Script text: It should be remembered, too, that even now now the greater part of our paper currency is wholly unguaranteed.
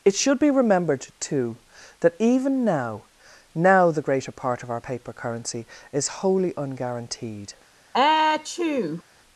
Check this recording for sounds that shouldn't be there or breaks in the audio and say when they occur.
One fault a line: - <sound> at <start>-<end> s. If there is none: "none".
- sneeze at 7.9-9.0 s